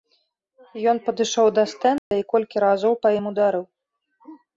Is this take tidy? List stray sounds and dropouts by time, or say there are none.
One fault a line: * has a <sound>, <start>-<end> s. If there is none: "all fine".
* has a dropout, 2.0-2.1 s